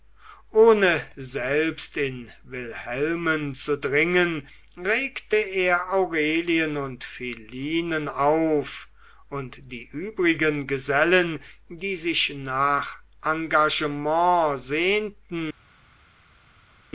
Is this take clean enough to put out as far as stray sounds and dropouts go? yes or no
yes